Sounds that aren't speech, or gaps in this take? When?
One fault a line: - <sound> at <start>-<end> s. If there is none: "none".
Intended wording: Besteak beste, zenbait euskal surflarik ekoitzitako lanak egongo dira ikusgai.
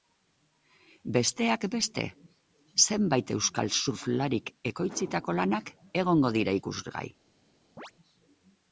- chirp at 7.8-7.9 s